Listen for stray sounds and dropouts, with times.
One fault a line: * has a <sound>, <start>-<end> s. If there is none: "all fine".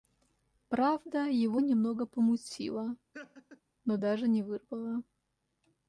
* has a laugh, 3.1-3.6 s